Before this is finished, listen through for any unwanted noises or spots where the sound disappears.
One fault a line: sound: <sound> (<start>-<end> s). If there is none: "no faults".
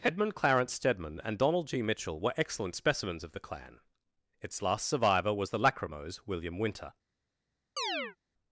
sound: chirp (7.8-8.2 s)